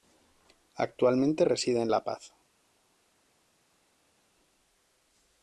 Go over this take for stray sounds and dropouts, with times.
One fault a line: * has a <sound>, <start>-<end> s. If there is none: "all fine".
all fine